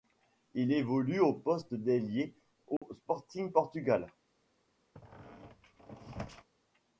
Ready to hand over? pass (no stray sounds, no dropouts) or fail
fail